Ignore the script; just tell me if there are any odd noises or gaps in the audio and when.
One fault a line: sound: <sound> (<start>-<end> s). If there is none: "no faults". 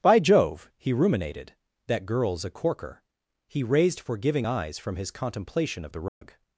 sound: dropout (6.1-6.2 s)